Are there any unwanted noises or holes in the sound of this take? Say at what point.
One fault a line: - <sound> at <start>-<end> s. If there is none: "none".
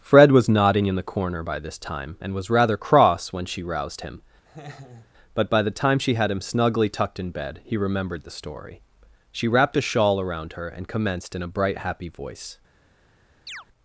- laugh at 4.5-5.1 s
- chirp at 13.5-13.7 s